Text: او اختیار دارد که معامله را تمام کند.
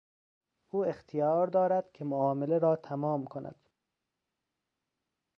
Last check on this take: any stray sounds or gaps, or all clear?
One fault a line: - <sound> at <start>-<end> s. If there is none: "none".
none